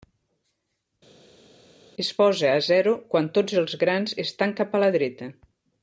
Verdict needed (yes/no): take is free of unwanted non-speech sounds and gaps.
yes